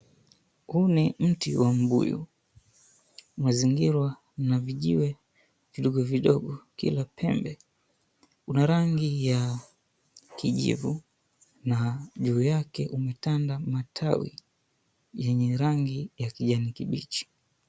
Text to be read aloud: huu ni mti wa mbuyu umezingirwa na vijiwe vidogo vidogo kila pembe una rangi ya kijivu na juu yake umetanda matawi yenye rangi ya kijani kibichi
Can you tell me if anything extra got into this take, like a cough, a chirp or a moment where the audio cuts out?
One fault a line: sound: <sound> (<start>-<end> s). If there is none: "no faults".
no faults